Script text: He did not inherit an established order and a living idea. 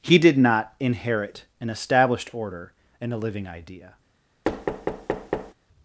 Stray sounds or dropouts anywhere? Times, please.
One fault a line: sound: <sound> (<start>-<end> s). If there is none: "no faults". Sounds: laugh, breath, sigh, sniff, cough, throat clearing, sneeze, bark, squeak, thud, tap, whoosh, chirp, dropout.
sound: thud (4.4-5.5 s)